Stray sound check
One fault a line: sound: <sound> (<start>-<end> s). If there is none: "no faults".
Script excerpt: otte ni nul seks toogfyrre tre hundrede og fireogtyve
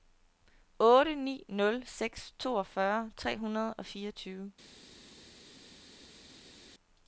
no faults